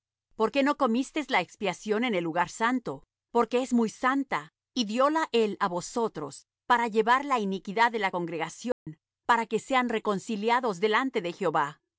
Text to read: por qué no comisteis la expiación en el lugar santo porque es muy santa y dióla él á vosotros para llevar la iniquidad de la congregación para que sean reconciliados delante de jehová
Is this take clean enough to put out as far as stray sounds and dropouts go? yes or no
no